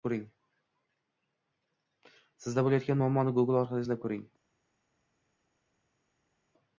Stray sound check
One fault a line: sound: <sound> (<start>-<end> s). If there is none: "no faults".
no faults